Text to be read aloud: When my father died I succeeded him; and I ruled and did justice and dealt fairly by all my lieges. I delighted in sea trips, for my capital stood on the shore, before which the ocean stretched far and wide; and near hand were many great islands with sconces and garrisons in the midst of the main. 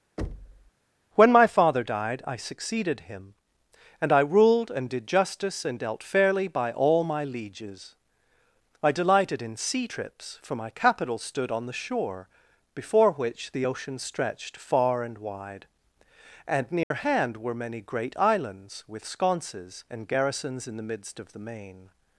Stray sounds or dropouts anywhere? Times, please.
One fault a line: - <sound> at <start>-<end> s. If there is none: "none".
- thud at 0.2-0.7 s
- dropout at 16.8-16.9 s